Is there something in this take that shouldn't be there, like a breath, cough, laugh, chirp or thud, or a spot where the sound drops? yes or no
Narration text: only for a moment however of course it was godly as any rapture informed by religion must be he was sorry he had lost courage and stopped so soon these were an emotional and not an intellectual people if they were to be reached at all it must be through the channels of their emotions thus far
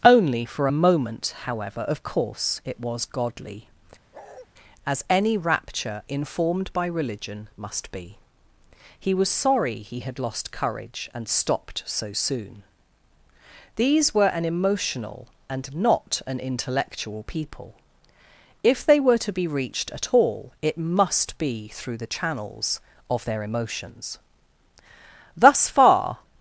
yes